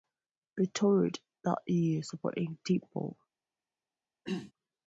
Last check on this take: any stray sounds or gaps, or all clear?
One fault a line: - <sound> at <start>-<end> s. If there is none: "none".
- throat clearing at 4.3-4.5 s